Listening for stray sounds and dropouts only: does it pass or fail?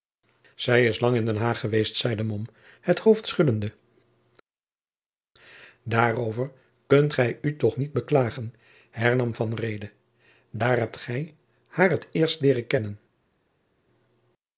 pass